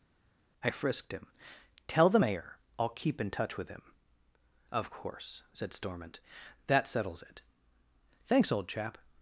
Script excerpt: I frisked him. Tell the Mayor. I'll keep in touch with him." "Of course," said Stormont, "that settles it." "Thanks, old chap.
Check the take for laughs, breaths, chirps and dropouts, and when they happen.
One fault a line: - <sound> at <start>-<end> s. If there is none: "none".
none